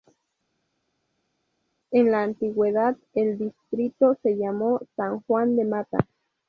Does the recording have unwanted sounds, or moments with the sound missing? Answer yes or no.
no